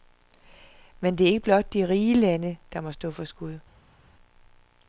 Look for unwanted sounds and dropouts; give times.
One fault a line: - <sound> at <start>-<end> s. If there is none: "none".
none